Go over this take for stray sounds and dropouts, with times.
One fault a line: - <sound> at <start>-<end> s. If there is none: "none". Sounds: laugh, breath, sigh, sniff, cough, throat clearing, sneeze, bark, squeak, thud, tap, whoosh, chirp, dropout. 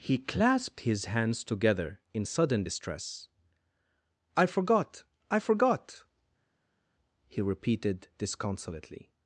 none